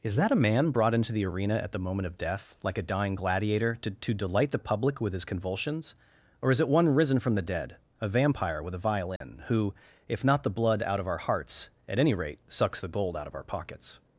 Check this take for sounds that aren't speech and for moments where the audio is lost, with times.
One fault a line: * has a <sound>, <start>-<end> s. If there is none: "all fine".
* has a dropout, 9.2-9.2 s